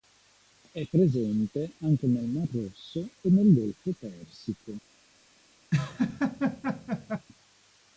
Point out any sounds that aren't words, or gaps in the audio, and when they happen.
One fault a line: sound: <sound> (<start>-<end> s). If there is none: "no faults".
sound: laugh (5.7-7.3 s)